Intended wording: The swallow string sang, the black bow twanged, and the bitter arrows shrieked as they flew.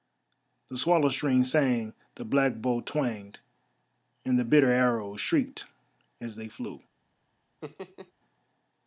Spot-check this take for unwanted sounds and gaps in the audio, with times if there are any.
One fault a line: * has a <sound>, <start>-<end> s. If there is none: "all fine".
* has a laugh, 7.6-8.1 s